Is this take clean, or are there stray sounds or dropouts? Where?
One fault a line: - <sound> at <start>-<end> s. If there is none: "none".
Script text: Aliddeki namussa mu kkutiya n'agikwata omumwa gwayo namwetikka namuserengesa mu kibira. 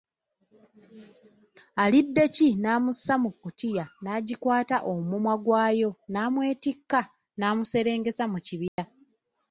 - dropout at 8.7-8.8 s